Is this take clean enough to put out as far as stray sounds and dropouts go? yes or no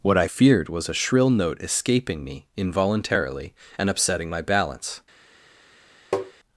no